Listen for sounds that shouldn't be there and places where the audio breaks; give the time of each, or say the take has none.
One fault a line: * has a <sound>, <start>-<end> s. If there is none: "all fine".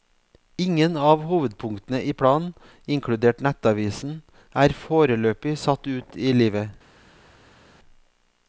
all fine